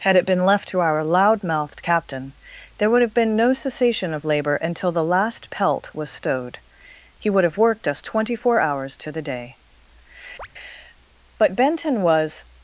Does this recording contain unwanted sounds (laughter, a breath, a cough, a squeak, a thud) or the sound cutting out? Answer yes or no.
yes